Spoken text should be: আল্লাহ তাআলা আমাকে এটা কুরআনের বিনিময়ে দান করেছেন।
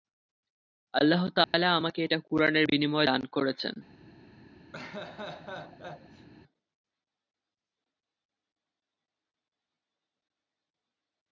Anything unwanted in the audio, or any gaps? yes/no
yes